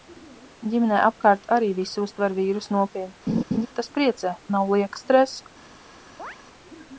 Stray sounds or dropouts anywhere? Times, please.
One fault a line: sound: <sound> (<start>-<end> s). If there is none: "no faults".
sound: laugh (3.3-3.7 s)
sound: chirp (6.2-6.4 s)